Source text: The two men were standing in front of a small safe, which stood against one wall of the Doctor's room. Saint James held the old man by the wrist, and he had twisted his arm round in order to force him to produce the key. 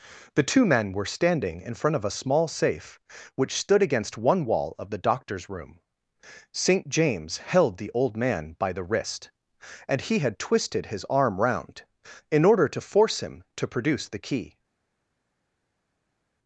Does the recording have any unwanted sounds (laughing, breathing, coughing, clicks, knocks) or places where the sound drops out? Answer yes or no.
no